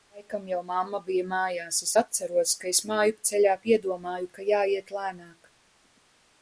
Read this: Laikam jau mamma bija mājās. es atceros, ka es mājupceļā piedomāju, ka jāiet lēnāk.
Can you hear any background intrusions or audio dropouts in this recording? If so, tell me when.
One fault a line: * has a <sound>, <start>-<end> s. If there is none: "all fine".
all fine